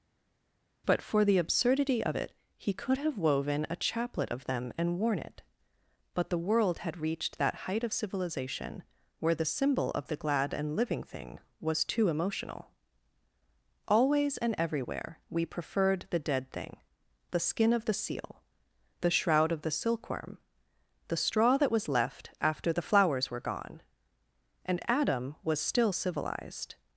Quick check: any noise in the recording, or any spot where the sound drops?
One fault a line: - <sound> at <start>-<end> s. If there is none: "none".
none